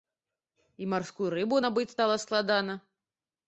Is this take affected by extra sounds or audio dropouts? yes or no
no